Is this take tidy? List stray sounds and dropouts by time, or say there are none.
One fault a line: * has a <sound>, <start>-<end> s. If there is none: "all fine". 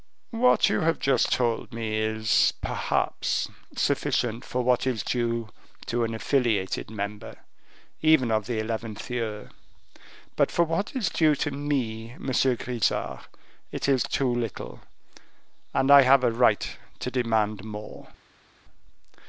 all fine